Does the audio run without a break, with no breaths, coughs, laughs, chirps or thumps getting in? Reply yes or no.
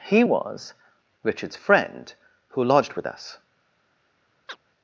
no